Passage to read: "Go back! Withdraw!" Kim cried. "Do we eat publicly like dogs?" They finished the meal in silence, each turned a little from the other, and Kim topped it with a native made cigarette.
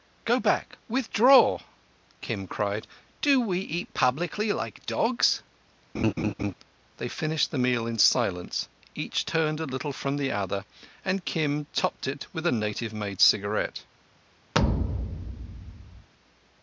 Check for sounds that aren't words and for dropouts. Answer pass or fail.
fail